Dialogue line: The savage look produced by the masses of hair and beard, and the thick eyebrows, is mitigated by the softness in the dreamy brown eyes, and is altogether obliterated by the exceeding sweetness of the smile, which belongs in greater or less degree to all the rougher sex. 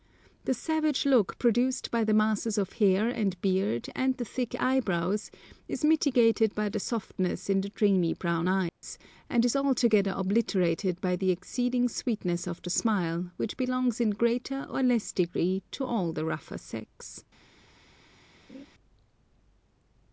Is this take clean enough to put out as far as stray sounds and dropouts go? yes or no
no